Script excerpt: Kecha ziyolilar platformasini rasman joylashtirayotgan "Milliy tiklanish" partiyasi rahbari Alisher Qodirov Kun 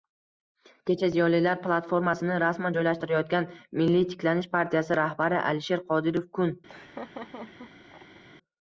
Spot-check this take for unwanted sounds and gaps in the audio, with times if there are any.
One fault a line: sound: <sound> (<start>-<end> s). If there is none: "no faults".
sound: laugh (6.7-8.2 s)